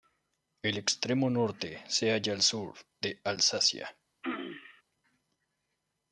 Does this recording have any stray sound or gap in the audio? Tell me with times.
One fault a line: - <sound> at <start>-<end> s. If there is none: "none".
- throat clearing at 4.2-4.8 s